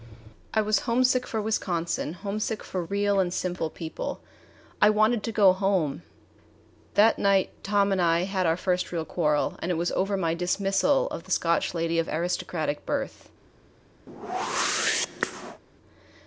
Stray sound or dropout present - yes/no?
yes